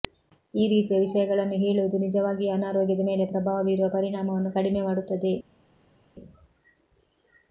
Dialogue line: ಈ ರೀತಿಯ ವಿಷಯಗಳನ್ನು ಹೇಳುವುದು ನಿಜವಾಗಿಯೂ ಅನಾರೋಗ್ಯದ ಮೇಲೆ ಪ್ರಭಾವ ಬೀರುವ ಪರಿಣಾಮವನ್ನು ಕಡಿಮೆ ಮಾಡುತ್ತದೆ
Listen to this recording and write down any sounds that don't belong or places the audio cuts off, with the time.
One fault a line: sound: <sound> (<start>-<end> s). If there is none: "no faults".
no faults